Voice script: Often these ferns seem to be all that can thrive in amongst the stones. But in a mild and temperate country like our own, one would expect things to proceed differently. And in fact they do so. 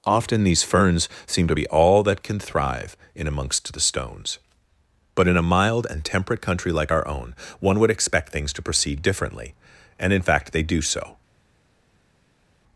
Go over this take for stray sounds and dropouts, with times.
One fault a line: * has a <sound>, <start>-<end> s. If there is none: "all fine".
all fine